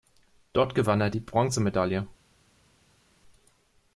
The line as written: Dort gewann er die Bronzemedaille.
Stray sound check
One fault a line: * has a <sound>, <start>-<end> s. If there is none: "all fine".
all fine